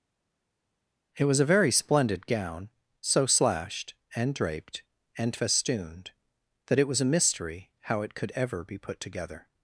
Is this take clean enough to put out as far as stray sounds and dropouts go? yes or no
yes